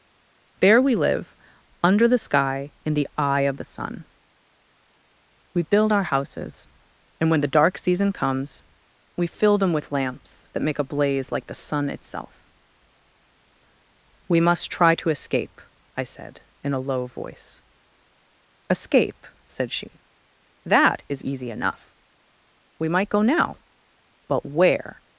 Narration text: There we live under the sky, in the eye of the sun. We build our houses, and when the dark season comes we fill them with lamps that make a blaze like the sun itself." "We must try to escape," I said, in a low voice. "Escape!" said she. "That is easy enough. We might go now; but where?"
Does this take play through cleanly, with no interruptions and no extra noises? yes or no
yes